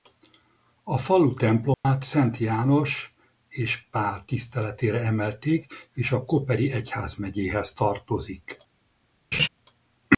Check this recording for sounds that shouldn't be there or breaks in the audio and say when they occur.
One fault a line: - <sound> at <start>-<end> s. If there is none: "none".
- dropout at 1.7-1.8 s
- laugh at 9.3-9.5 s